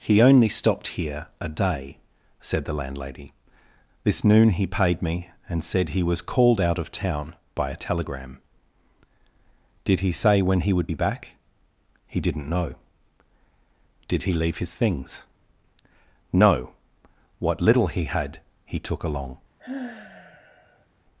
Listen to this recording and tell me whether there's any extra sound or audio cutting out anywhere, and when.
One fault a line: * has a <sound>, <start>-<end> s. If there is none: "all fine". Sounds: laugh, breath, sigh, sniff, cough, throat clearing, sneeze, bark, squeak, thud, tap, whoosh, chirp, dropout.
* has a sigh, 19.6-20.9 s